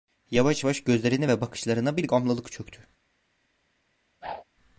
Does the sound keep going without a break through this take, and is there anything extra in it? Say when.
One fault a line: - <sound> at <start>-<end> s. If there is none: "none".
- whoosh at 4.2-4.4 s